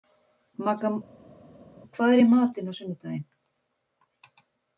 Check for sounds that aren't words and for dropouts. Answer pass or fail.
pass